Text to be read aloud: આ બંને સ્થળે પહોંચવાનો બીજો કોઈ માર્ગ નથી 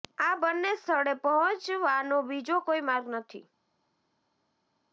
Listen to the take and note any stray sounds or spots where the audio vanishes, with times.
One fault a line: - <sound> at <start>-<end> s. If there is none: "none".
none